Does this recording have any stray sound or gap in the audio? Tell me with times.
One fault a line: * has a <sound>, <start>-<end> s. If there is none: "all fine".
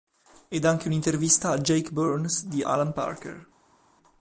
all fine